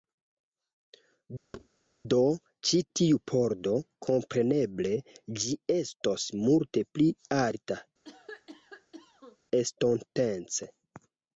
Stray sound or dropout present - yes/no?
yes